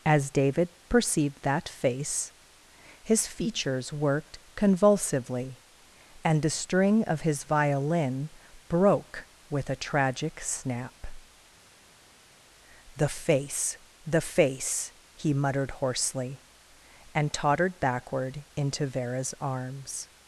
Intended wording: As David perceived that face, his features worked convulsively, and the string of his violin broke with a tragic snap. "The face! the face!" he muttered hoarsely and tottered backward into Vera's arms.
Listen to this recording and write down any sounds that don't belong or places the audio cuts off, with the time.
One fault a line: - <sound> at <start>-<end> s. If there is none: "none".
none